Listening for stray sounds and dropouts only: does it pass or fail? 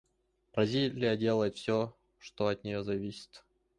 pass